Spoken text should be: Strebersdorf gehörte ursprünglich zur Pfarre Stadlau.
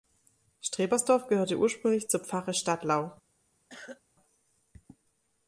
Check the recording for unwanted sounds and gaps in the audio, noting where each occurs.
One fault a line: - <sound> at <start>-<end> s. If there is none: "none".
- cough at 3.7-4.0 s